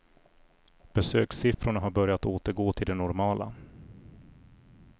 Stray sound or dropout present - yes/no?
yes